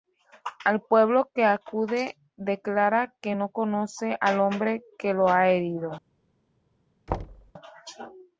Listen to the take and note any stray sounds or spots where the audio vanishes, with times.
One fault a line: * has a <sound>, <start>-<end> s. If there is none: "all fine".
* has a thud, 7.1-7.5 s